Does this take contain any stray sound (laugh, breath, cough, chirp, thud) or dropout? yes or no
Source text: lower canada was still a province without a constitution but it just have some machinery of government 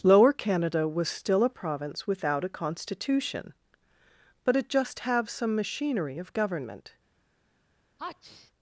yes